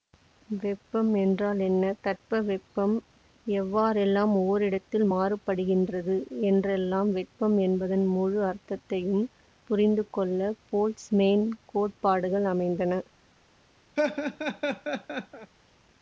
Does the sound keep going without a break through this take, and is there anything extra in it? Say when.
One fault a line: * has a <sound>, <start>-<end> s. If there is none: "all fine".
* has a laugh, 14.0-15.5 s